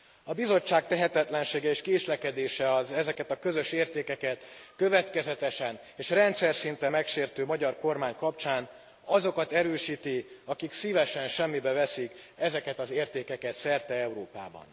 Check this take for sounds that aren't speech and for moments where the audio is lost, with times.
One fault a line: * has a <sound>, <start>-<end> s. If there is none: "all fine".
all fine